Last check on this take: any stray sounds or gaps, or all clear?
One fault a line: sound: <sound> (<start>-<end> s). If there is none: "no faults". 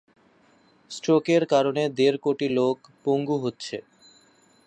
no faults